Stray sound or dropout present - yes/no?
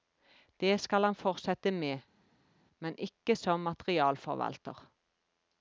no